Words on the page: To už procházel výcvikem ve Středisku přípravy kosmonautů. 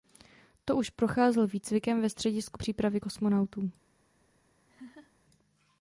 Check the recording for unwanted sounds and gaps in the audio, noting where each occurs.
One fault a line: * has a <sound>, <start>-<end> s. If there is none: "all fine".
* has a laugh, 4.7-5.1 s